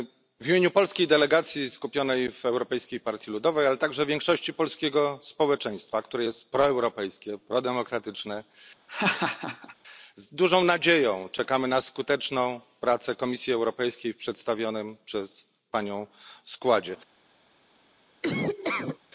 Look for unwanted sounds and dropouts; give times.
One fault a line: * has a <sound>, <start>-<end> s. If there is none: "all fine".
* has a laugh, 8.9-9.8 s
* has a laugh, 18.2-19.0 s